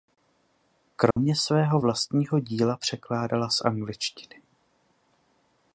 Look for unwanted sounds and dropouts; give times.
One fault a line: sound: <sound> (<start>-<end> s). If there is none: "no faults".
sound: dropout (1.1-1.2 s)